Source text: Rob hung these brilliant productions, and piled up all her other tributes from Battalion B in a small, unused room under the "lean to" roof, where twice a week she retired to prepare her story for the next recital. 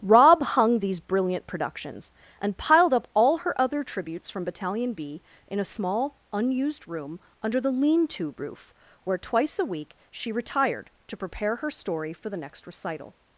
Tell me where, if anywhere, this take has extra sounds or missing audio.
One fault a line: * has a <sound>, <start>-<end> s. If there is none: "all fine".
all fine